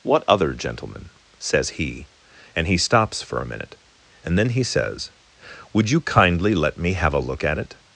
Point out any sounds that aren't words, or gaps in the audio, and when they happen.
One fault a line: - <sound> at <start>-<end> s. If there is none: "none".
none